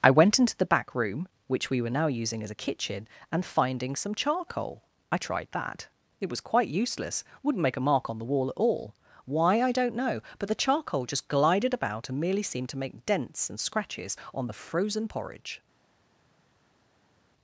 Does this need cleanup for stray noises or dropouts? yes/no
no